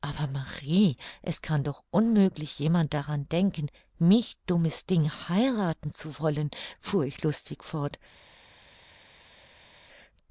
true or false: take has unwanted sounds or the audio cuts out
false